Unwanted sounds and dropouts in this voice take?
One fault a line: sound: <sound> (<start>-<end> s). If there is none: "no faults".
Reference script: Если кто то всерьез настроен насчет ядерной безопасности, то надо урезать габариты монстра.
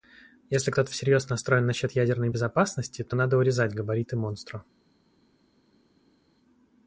no faults